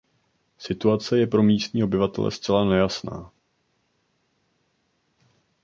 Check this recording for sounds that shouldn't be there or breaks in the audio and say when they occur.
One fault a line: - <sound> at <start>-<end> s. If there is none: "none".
none